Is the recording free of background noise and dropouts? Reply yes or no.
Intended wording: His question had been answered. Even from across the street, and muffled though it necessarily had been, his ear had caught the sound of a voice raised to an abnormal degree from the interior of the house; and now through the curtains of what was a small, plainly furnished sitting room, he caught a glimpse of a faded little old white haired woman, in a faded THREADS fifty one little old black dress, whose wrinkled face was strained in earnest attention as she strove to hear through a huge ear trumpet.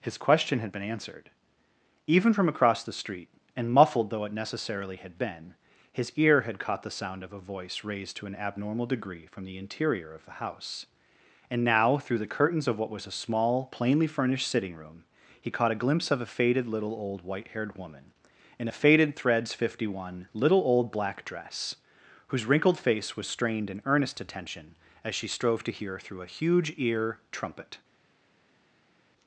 yes